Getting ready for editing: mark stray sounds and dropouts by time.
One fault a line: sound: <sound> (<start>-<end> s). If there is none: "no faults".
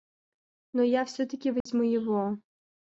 sound: dropout (1.6-1.7 s)